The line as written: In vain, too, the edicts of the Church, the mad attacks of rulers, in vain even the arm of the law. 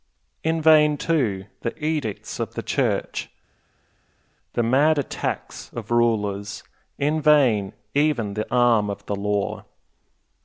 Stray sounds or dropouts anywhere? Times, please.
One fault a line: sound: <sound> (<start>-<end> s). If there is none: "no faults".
no faults